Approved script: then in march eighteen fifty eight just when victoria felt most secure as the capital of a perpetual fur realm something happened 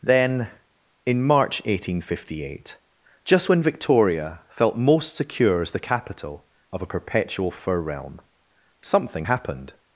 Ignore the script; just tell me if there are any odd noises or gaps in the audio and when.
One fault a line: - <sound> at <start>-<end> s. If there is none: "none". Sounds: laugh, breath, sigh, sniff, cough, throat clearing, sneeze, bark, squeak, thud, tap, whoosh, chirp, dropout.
none